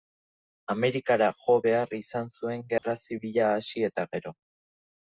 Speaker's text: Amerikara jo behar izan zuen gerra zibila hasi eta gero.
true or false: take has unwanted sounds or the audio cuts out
true